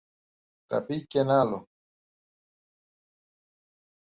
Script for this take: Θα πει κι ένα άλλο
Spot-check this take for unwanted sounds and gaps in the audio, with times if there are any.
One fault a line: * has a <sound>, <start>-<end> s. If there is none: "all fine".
all fine